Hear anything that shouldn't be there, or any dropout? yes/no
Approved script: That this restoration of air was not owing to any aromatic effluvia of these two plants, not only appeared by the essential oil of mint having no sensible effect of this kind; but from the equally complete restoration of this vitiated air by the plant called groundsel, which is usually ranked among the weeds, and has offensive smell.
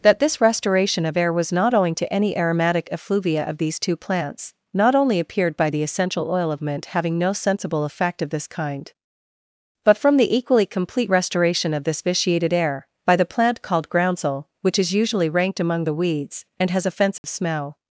yes